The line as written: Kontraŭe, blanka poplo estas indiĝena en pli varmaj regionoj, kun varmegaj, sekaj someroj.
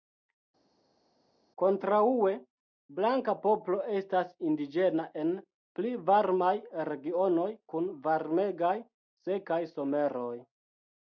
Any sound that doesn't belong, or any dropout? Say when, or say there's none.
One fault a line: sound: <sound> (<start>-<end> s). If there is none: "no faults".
no faults